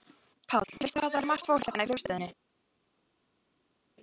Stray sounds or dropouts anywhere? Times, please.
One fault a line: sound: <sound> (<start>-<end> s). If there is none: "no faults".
no faults